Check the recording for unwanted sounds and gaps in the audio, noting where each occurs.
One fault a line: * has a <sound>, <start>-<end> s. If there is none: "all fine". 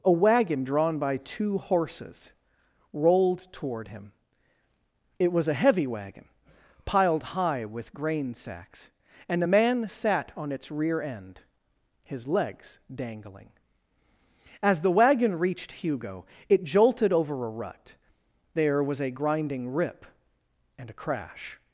all fine